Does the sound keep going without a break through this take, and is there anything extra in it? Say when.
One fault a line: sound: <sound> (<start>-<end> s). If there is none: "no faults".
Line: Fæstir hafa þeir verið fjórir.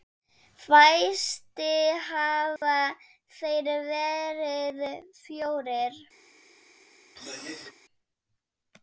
sound: dropout (2.6-2.6 s)
sound: throat clearing (7.2-7.7 s)